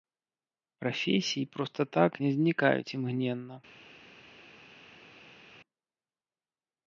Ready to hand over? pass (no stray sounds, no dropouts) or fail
pass